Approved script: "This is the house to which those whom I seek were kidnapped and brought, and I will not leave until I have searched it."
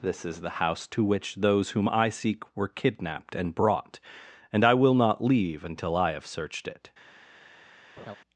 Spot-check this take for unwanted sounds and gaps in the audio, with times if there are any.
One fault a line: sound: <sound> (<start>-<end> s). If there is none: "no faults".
sound: laugh (8.0-8.2 s)